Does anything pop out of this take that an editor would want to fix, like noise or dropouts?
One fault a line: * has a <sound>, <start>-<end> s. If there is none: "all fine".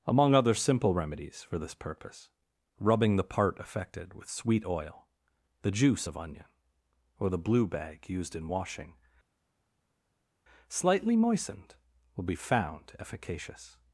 all fine